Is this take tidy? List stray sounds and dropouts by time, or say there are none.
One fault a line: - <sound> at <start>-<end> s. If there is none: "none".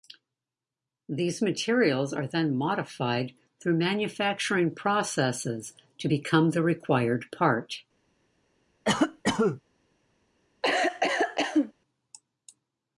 - cough at 8.8-9.6 s
- cough at 10.6-11.7 s